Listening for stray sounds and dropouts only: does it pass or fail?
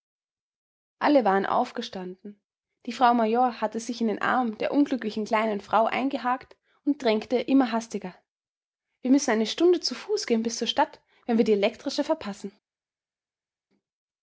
pass